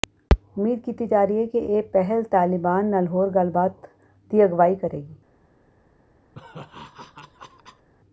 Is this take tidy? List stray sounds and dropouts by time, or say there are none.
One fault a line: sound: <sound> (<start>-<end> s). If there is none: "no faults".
sound: laugh (6.3-7.9 s)